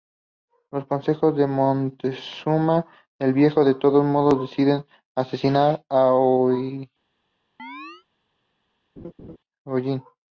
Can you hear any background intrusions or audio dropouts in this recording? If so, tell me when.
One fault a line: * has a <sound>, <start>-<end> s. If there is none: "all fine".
* has a chirp, 7.6-8.1 s
* has a laugh, 9.0-9.4 s